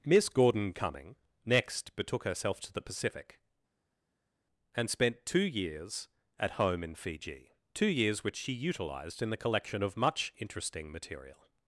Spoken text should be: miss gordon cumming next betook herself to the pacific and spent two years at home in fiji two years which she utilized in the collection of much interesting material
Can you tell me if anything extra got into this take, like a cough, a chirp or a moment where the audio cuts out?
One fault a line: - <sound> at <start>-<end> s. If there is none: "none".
none